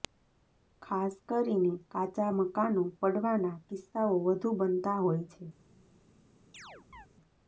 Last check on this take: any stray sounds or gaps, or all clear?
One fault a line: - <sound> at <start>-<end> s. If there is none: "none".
- chirp at 6.5-7.1 s